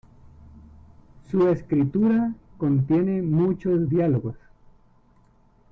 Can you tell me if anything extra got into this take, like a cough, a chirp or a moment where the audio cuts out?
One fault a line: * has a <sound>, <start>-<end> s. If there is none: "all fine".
all fine